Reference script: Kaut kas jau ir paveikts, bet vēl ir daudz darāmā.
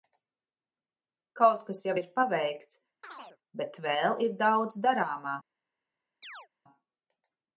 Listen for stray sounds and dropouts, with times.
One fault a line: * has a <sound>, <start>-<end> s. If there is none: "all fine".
* has a chirp, 3.0-3.4 s
* has a chirp, 6.2-6.5 s